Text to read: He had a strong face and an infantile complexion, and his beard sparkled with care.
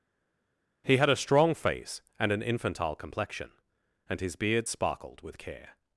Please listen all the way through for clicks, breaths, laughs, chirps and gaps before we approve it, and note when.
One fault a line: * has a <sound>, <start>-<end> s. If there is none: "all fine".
all fine